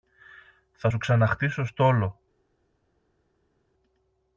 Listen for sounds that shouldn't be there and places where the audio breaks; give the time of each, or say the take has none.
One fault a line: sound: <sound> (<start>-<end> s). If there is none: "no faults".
no faults